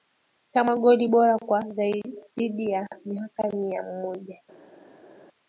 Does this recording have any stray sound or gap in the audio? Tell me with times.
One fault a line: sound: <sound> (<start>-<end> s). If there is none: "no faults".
no faults